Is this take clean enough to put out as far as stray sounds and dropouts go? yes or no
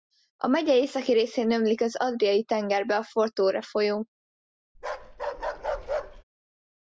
no